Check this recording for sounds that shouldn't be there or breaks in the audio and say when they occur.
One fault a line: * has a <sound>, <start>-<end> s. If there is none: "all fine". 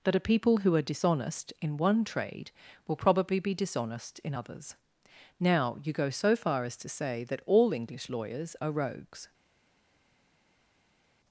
all fine